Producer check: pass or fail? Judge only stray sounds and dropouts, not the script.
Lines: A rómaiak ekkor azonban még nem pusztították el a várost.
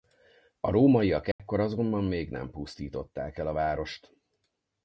fail